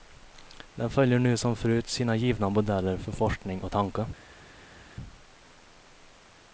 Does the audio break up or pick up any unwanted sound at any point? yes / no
no